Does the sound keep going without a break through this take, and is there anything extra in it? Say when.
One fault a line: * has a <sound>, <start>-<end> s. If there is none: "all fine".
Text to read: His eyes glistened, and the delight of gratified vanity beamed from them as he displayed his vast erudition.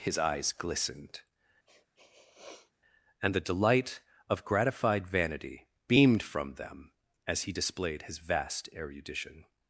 * has a sniff, 1.7-2.7 s